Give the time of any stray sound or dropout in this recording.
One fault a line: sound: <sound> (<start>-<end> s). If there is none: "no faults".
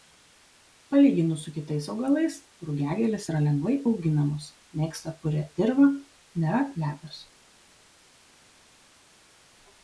no faults